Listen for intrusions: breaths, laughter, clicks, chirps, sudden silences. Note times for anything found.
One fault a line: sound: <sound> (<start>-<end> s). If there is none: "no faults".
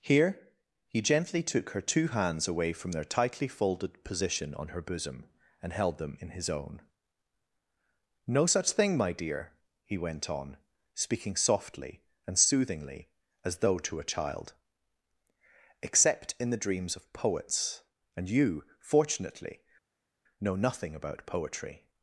no faults